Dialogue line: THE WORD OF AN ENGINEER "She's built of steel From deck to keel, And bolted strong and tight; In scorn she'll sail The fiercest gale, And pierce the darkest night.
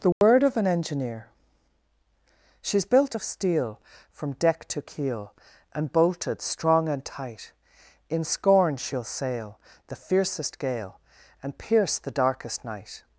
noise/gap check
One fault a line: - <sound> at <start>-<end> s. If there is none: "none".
- dropout at 0.1-0.2 s